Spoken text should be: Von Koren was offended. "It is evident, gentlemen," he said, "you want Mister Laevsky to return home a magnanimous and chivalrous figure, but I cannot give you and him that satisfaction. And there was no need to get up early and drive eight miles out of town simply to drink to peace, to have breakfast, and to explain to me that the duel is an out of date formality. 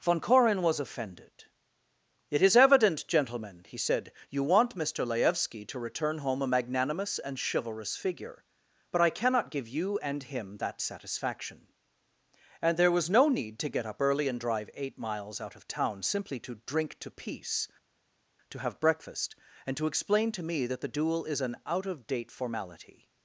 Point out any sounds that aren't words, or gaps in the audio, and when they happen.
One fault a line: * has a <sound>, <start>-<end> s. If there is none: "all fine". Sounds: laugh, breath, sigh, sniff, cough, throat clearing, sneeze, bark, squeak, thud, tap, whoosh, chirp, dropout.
all fine